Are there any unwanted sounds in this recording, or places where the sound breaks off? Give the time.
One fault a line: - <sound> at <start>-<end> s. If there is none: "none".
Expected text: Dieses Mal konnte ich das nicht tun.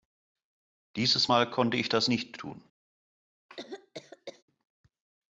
- cough at 3.5-4.4 s